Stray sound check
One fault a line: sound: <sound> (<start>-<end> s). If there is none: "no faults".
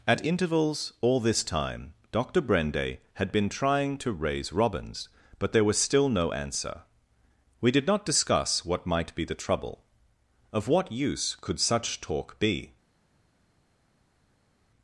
no faults